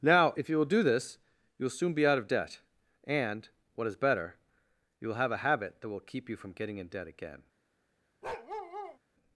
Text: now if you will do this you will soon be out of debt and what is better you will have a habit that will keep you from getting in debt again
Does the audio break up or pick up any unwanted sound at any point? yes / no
yes